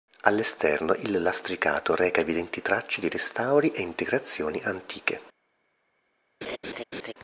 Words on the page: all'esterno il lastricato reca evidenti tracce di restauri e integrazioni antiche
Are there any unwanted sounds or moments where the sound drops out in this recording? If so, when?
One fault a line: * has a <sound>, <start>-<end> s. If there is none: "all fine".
* has a laugh, 6.4-7.1 s